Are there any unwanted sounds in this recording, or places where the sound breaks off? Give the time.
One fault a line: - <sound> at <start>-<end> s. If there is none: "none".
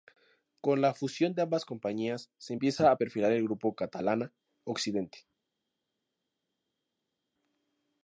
none